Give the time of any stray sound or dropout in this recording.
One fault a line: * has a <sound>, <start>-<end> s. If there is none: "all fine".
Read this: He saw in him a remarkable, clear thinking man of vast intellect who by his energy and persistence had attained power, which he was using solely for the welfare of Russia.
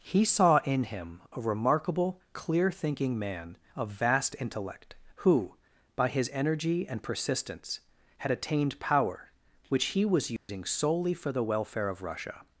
* has a dropout, 10.4-10.5 s